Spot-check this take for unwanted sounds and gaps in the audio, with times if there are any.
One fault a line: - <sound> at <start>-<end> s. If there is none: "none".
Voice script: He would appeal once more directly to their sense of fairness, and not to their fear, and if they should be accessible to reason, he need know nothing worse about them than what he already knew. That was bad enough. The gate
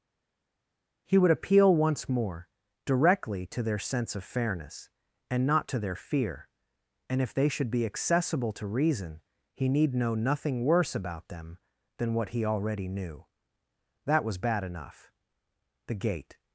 none